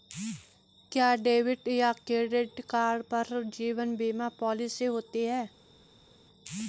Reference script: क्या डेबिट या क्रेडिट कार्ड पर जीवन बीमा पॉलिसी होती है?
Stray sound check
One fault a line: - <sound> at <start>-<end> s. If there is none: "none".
none